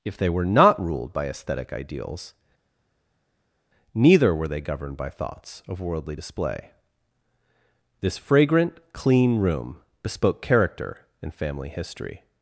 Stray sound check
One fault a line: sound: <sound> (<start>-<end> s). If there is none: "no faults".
no faults